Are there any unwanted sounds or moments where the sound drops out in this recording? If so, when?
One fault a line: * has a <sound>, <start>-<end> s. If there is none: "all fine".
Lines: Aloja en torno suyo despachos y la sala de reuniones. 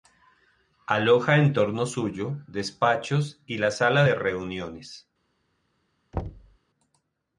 * has a thud, 6.1-6.6 s